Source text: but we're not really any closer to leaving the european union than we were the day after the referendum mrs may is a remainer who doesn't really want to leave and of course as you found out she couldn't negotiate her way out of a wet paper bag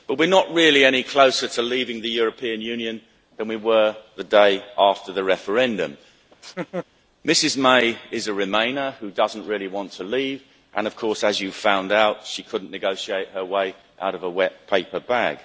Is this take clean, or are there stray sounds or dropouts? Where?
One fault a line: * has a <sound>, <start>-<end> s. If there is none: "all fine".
* has a laugh, 6.3-6.9 s